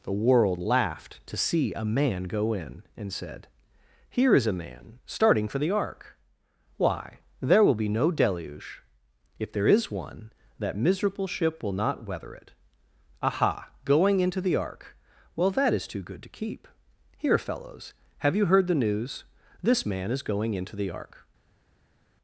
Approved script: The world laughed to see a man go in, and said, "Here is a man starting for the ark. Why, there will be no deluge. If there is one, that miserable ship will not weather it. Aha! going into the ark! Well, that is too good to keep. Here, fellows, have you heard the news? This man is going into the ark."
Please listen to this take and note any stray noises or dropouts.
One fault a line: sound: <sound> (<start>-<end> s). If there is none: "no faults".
no faults